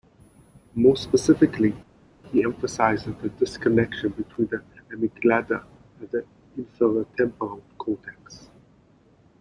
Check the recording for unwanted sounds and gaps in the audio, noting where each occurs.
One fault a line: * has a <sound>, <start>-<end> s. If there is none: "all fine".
all fine